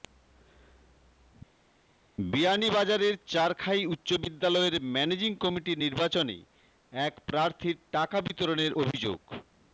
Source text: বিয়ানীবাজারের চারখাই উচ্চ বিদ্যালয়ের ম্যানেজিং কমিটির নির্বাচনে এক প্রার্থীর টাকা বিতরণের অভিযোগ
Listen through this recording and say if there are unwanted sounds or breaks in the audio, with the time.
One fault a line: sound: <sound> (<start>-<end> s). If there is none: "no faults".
no faults